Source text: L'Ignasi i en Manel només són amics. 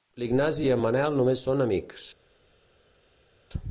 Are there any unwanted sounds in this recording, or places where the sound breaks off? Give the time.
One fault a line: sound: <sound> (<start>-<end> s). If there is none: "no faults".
no faults